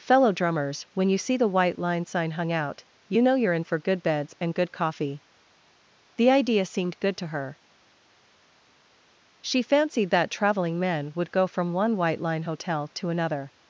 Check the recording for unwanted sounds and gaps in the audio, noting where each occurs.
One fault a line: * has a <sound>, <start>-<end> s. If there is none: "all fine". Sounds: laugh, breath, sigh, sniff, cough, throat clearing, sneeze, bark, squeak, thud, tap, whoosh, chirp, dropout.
all fine